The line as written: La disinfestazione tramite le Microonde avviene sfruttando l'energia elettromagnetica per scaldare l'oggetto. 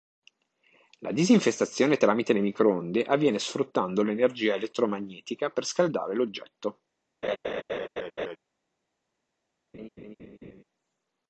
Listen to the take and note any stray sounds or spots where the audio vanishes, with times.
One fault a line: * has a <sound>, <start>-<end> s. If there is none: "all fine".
* has a laugh, 7.2-8.4 s
* has a laugh, 9.7-10.6 s